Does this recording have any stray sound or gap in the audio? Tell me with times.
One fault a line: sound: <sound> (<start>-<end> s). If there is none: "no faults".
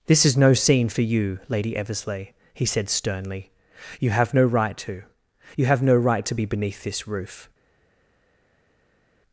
no faults